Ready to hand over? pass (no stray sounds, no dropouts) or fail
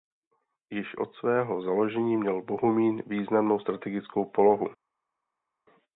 pass